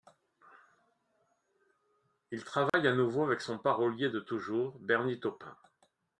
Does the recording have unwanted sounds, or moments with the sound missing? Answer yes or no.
yes